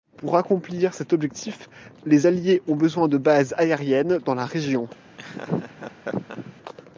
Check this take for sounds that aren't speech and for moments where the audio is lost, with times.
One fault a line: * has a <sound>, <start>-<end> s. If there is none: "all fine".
* has a laugh, 5.2-6.5 s